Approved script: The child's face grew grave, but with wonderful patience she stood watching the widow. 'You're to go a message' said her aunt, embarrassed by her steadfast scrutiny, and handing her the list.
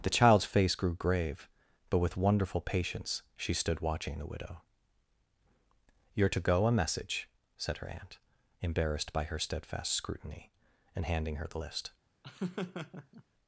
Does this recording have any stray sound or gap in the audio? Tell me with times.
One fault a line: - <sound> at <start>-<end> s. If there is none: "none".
- laugh at 12.2-13.2 s